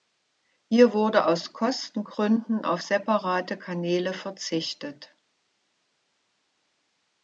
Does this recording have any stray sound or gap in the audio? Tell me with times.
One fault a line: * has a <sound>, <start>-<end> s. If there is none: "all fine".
all fine